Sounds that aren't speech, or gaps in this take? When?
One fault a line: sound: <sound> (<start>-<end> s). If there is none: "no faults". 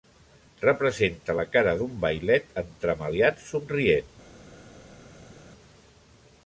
no faults